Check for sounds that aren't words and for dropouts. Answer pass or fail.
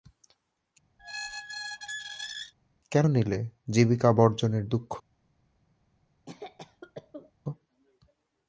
fail